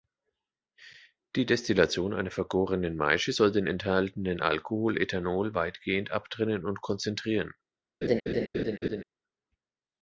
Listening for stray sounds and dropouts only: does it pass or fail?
fail